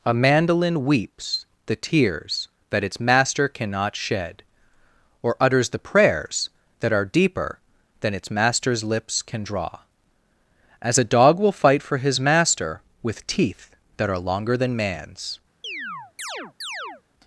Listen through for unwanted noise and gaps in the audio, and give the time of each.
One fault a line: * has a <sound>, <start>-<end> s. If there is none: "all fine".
* has a chirp, 15.6-17.0 s